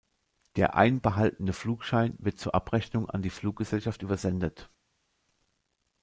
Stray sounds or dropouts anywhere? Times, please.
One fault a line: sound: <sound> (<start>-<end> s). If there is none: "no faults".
no faults